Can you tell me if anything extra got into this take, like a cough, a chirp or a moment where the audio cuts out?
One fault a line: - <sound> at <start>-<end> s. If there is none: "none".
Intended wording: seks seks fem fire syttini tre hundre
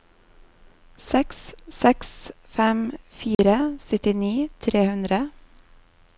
- dropout at 3.3-3.4 s